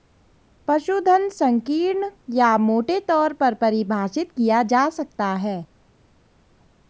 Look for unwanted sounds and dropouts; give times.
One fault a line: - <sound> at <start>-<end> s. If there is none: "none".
none